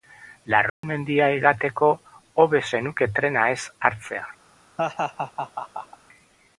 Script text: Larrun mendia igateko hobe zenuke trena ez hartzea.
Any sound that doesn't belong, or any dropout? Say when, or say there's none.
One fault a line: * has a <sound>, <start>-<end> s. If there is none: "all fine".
* has a dropout, 0.7-0.8 s
* has a laugh, 4.8-6.0 s